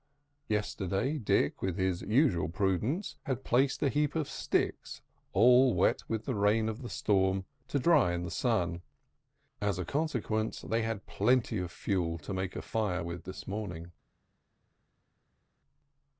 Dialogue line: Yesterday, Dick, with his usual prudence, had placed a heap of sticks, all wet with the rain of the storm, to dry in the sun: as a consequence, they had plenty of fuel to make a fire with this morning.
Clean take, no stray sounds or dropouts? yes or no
yes